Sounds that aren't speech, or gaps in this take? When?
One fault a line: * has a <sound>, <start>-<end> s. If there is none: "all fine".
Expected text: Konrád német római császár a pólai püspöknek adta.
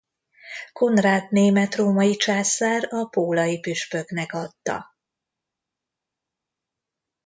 all fine